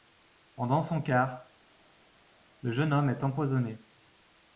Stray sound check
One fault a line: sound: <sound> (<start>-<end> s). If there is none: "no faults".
no faults